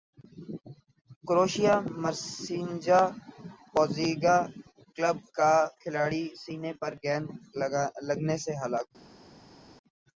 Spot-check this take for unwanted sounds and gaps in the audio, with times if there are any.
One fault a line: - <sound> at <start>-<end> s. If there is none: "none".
none